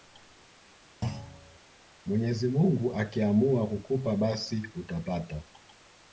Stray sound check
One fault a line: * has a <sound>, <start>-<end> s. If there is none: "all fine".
* has a thud, 1.0-1.6 s